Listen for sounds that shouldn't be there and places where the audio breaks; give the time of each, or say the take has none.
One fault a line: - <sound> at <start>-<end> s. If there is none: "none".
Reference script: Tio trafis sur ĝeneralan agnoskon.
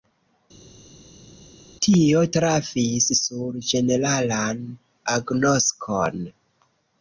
none